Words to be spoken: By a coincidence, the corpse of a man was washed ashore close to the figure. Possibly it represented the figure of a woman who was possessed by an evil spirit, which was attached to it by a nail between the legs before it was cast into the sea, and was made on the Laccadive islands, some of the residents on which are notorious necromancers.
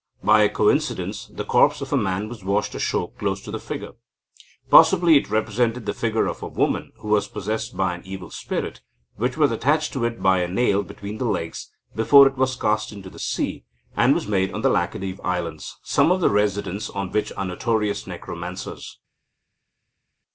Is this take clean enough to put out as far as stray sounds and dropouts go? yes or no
yes